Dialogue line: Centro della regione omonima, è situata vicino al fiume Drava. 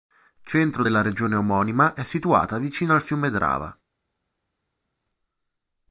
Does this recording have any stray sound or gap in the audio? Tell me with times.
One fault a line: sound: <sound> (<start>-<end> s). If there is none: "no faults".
no faults